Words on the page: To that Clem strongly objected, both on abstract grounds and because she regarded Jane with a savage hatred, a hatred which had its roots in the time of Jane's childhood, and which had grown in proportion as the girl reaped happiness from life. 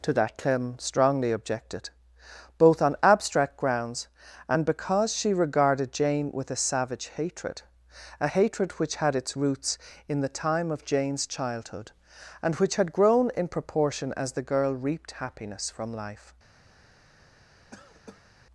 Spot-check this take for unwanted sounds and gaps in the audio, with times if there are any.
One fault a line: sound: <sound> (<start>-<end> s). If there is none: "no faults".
sound: cough (17.7-18.3 s)